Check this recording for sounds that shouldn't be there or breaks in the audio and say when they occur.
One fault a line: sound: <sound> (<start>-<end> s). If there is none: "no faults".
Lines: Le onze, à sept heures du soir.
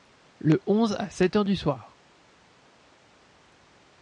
no faults